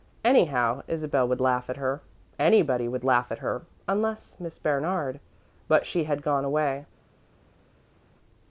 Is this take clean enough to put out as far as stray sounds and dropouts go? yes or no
yes